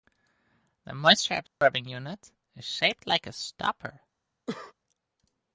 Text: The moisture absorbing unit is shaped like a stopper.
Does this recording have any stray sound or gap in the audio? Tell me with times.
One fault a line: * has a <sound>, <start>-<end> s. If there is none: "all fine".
* has a dropout, 1.5-1.6 s
* has a cough, 4.5-4.7 s